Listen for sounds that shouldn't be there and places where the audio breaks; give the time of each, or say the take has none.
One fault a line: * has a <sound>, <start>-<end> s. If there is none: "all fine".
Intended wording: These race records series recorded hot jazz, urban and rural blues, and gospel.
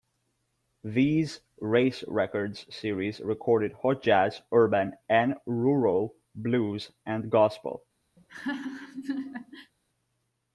* has a laugh, 8.2-9.7 s